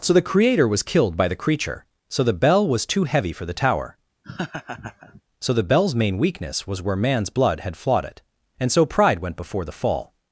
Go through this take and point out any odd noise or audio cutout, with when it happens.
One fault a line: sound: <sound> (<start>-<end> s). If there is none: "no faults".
sound: laugh (4.2-5.2 s)